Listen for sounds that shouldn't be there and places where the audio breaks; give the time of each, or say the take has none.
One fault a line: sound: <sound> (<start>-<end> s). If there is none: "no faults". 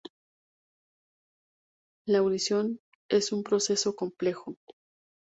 no faults